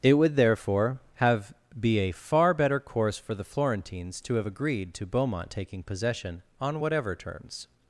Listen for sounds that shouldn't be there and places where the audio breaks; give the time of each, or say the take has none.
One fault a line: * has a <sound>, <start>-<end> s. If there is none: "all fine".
all fine